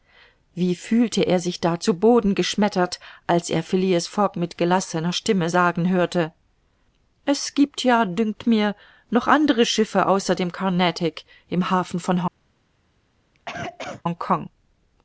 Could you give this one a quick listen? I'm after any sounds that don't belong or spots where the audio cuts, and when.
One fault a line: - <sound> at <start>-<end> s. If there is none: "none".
- cough at 13.3-14.0 s